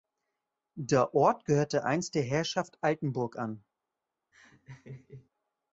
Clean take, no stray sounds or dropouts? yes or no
no